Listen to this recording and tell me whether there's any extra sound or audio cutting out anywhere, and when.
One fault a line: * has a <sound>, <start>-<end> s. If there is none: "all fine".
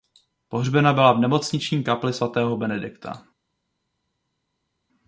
all fine